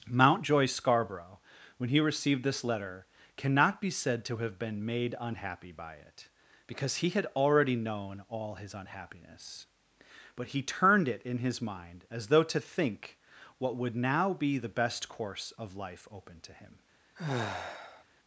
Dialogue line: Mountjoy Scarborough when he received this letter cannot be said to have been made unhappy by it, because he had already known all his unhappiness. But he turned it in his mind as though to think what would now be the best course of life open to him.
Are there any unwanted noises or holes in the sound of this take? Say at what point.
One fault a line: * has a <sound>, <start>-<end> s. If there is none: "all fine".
* has a sigh, 17.2-18.0 s